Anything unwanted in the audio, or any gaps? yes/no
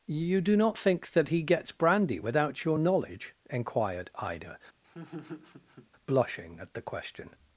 yes